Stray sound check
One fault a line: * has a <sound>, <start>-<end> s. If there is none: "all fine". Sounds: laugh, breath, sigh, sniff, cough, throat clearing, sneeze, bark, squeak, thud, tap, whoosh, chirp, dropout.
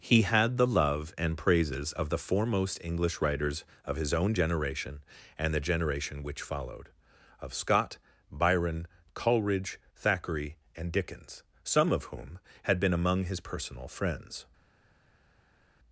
all fine